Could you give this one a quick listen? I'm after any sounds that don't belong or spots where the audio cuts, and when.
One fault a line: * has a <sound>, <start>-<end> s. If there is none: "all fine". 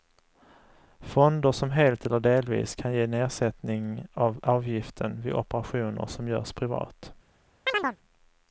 * has a chirp, 7.7-8.0 s